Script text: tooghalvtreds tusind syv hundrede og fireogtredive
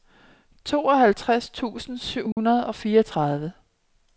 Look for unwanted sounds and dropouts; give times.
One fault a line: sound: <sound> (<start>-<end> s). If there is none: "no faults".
sound: dropout (2.3-2.4 s)